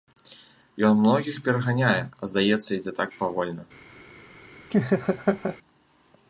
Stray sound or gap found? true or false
true